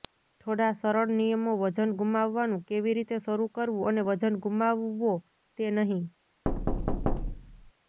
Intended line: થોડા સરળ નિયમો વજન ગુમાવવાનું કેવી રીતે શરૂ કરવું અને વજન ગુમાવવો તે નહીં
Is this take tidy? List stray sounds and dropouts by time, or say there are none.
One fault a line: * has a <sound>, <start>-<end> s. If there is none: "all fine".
* has a thud, 6.4-7.7 s